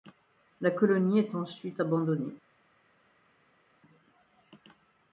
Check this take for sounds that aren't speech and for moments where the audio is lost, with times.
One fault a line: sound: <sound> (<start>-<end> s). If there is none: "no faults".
no faults